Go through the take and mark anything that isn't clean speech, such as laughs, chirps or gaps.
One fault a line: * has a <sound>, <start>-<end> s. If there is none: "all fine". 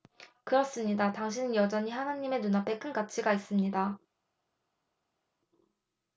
all fine